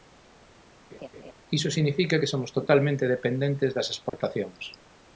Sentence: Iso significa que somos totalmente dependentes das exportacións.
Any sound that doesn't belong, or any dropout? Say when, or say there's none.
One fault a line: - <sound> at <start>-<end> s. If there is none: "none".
- laugh at 0.9-1.3 s
- dropout at 4.1-4.1 s